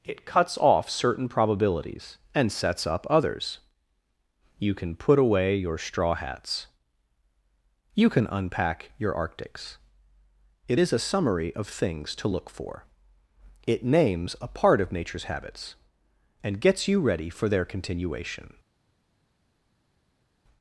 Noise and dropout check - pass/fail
pass